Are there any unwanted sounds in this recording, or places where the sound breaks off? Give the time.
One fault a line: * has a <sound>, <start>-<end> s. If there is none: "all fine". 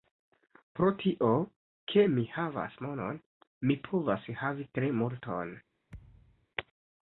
* has a thud, 5.9-6.5 s